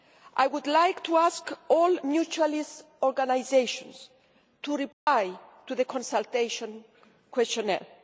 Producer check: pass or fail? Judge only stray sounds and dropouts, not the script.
fail